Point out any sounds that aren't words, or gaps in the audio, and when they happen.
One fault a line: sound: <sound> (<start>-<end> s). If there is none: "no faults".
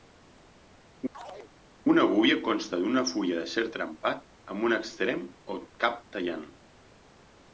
sound: chirp (1.1-1.5 s)